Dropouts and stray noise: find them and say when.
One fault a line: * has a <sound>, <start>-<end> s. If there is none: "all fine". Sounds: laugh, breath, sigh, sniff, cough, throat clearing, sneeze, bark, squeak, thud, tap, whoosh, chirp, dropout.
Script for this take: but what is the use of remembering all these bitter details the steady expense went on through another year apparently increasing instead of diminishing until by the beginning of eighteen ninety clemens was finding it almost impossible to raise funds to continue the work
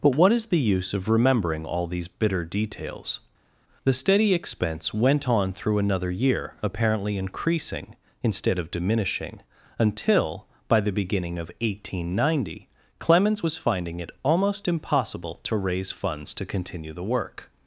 all fine